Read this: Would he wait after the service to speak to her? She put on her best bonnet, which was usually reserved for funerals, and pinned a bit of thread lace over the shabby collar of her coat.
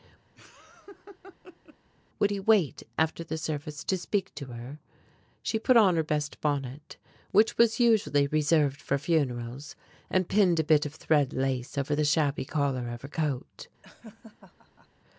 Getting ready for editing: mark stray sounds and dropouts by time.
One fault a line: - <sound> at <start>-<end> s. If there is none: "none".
- laugh at 0.4-1.8 s
- laugh at 13.8-14.9 s